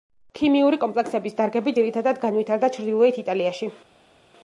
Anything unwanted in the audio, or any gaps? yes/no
no